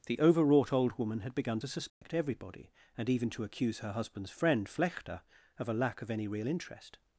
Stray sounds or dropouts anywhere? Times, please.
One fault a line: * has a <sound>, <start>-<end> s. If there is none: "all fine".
* has a dropout, 1.9-2.0 s